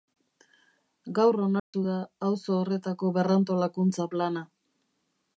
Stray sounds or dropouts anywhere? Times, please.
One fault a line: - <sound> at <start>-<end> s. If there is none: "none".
- dropout at 1.6-1.7 s